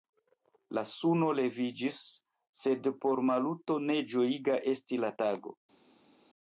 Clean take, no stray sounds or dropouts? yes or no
yes